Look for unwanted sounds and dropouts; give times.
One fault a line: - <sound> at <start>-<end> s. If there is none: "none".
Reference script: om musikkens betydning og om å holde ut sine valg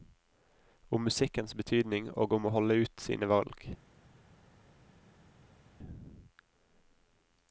none